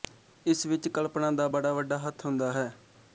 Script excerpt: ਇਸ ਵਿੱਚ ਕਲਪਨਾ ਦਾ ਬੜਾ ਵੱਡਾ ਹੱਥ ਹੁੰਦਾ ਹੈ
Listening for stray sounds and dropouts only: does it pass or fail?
pass